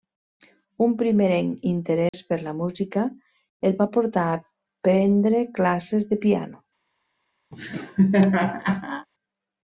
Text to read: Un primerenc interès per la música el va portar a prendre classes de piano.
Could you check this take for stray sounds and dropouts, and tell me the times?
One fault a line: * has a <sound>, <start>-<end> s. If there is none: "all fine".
* has a dropout, 2.1-2.1 s
* has a laugh, 7.5-9.1 s